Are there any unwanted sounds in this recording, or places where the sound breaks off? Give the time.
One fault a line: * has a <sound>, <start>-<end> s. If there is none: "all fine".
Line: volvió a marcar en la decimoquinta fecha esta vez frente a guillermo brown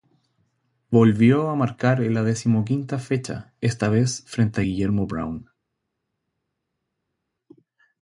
all fine